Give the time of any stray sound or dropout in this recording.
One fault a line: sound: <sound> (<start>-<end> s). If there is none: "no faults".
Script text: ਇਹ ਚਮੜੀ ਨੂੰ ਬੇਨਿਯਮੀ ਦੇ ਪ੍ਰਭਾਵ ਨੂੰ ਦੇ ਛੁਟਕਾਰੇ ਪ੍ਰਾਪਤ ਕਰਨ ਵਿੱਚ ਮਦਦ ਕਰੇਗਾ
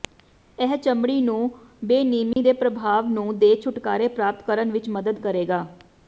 sound: dropout (2.3-2.4 s)